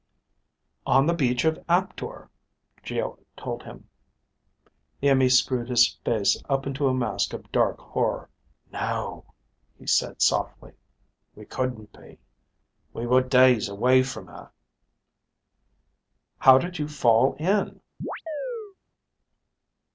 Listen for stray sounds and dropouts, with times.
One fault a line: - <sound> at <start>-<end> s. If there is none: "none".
- chirp at 18.0-18.8 s